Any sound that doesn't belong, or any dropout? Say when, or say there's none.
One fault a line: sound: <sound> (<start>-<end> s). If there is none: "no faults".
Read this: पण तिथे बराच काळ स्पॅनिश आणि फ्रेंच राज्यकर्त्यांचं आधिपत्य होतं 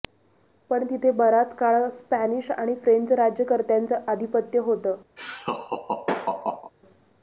sound: laugh (5.2-6.7 s)